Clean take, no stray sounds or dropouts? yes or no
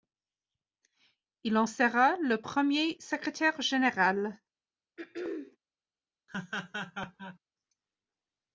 no